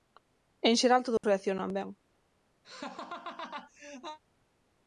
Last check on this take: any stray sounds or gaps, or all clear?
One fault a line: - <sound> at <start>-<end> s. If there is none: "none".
- dropout at 1.2-1.2 s
- laugh at 2.6-4.2 s